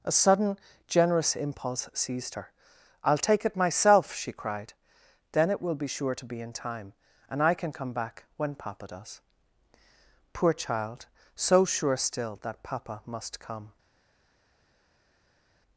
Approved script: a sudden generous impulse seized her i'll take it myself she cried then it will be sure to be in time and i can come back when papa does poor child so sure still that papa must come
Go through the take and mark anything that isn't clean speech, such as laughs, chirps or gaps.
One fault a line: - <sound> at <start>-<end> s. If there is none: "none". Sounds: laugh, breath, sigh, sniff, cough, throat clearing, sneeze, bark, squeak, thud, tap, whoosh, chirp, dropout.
none